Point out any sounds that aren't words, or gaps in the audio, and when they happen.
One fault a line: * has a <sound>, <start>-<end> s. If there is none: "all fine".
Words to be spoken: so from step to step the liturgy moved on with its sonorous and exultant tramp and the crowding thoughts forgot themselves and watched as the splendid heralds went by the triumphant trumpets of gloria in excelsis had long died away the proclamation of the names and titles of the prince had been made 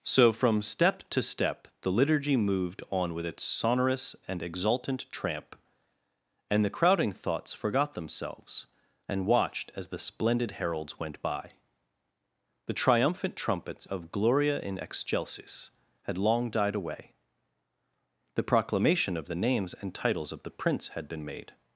all fine